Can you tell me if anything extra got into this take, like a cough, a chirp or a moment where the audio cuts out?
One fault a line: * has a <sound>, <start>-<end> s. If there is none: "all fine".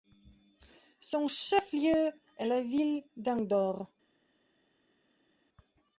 all fine